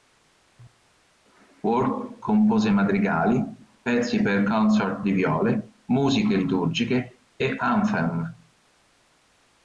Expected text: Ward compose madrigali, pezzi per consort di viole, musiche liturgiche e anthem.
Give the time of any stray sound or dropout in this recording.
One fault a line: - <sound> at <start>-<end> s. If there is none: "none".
none